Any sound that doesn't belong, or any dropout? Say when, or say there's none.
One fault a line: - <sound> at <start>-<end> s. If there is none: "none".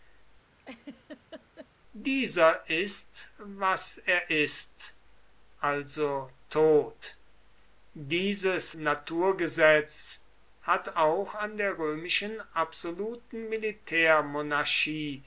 - laugh at 0.6-1.7 s